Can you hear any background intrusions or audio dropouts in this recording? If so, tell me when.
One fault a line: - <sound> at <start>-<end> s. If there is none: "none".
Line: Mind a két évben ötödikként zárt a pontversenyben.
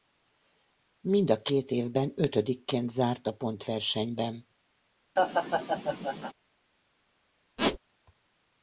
- laugh at 5.2-6.3 s
- squeak at 7.6-7.8 s